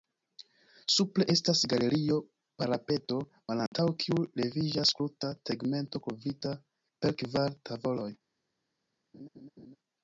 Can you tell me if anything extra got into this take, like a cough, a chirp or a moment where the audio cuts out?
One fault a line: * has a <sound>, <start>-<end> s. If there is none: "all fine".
* has a dropout, 3.7-3.7 s
* has a laugh, 9.1-9.8 s